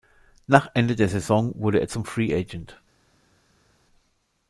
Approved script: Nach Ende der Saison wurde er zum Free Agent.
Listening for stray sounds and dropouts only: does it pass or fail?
pass